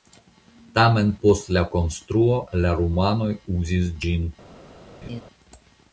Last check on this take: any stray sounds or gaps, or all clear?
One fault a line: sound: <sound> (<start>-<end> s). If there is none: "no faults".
sound: laugh (5.0-5.2 s)